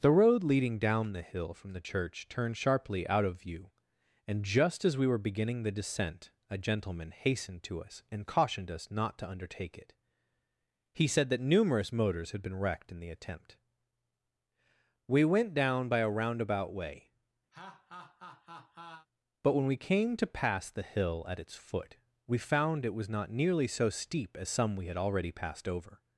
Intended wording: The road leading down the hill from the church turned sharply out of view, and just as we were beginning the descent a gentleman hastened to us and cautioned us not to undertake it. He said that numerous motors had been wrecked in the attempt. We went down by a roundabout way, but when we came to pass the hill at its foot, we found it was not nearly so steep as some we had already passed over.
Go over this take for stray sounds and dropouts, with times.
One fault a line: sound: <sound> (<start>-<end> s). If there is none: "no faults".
sound: laugh (17.5-19.1 s)